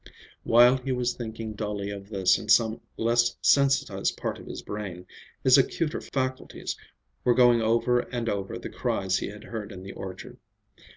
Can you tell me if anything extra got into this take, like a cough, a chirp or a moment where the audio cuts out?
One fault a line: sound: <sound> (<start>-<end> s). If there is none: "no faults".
no faults